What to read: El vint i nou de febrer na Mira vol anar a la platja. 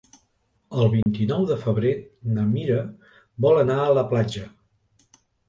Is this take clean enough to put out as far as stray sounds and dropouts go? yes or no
no